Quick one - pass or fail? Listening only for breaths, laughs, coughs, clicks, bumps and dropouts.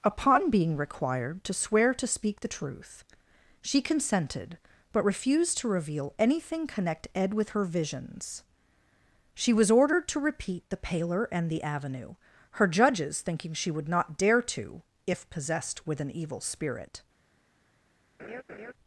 fail